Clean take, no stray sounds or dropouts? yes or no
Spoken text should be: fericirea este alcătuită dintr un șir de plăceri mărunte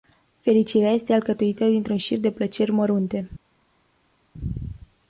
yes